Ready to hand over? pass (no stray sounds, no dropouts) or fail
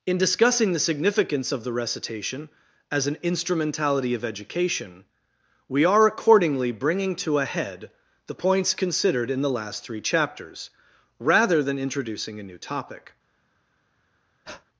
fail